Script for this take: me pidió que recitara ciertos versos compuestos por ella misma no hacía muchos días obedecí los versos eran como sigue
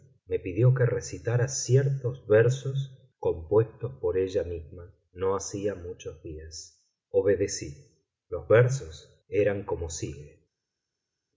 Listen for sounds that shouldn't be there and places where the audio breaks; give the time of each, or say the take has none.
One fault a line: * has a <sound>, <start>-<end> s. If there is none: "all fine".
all fine